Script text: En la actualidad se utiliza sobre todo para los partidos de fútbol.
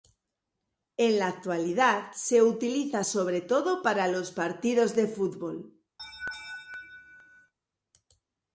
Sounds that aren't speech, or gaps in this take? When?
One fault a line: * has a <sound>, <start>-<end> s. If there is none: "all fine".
* has a laugh, 6.0-7.5 s